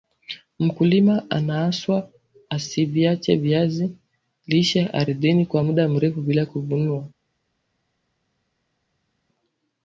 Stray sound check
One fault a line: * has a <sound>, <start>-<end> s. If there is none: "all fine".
all fine